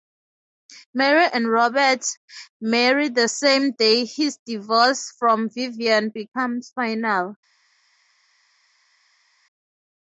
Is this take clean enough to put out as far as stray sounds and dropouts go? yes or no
yes